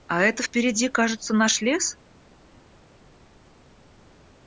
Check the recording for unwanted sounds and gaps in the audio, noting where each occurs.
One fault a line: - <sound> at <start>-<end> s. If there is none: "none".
none